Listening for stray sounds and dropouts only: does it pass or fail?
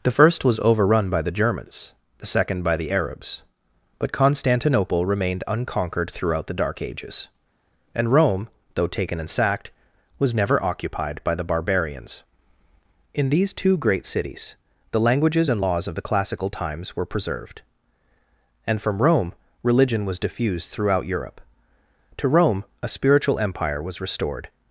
pass